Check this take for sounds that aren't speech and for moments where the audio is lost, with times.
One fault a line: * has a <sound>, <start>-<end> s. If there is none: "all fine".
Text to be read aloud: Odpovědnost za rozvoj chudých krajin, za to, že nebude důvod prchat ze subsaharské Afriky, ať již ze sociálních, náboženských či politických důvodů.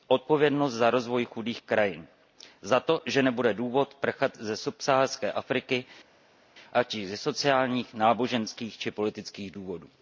all fine